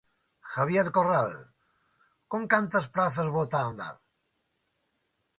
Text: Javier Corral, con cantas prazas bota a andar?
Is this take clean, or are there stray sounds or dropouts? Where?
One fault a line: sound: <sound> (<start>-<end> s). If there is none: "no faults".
no faults